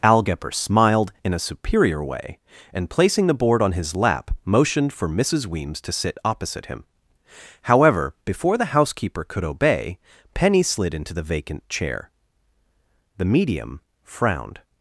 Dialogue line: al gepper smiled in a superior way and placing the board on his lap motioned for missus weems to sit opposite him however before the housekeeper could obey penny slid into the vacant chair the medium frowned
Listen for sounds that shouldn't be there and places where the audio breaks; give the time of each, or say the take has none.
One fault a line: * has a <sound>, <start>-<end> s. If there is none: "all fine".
all fine